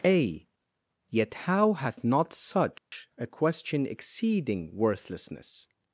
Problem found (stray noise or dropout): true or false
true